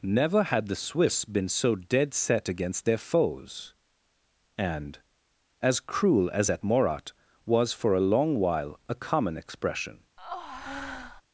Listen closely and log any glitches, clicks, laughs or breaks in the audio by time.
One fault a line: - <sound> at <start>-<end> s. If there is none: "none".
- breath at 10.2-11.2 s